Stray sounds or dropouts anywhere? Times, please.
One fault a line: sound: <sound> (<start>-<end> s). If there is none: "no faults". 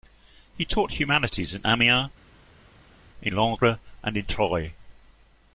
no faults